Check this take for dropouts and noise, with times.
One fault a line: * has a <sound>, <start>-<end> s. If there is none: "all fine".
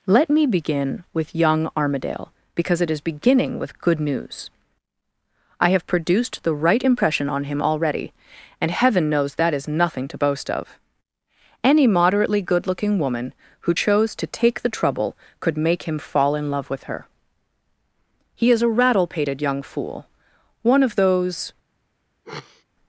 * has a sniff, 22.2-22.6 s